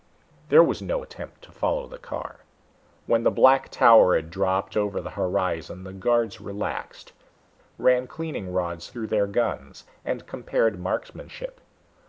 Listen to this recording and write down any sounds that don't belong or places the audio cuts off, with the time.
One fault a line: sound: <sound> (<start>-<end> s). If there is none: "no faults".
no faults